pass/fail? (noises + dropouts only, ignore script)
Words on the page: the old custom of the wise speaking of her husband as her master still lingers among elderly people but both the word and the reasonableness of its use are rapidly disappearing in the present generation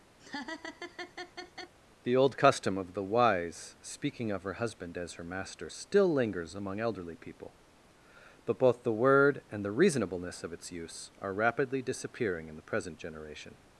fail